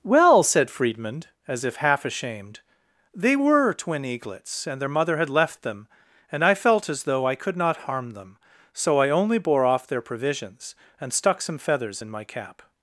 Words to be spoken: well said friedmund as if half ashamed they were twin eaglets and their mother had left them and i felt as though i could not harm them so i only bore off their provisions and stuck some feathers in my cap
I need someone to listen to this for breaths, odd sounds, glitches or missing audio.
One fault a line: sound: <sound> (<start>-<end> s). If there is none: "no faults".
no faults